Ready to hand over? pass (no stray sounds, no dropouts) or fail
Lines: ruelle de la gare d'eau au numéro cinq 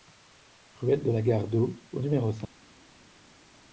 pass